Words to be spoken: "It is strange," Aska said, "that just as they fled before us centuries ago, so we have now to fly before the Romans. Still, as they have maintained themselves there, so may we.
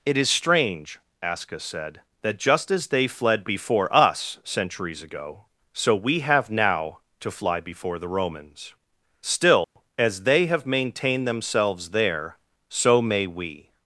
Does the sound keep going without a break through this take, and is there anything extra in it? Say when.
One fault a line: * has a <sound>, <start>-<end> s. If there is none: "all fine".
* has a dropout, 9.6-9.8 s